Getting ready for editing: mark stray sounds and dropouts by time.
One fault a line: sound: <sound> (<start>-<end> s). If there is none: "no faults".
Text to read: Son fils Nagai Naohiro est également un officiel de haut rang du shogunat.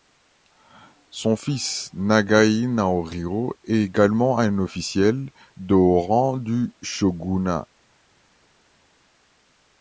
no faults